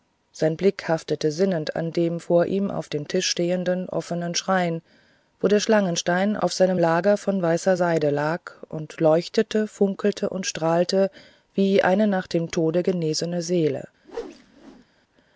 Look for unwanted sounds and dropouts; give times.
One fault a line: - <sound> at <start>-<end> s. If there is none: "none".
- whoosh at 14.0-14.9 s